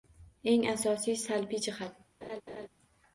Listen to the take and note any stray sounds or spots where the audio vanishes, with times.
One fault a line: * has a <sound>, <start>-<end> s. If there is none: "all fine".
* has a laugh, 2.2-2.7 s